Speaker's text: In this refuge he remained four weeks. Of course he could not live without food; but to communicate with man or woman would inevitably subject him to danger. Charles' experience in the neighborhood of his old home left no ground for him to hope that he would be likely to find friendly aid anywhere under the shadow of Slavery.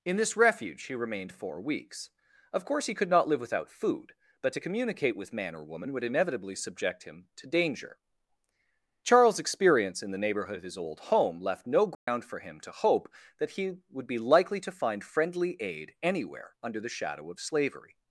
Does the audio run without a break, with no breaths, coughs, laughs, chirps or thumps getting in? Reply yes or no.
no